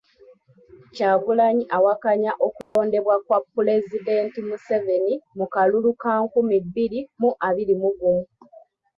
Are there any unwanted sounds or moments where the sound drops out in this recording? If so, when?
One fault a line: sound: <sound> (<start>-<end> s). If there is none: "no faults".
sound: dropout (2.6-2.8 s)